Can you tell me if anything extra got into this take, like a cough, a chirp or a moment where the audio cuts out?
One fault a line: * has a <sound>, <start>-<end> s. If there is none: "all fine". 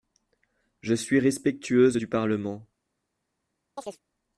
* has a chirp, 3.8-4.0 s